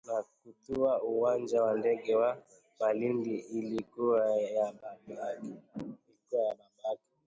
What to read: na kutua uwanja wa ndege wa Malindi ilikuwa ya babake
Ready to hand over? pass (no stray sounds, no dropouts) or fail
pass